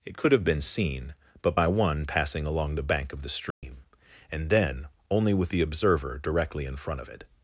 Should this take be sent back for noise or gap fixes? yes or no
yes